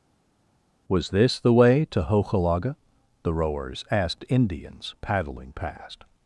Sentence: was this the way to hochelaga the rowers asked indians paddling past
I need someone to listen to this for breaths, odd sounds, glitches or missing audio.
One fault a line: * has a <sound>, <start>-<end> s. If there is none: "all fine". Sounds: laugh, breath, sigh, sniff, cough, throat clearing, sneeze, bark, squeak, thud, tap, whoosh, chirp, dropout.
all fine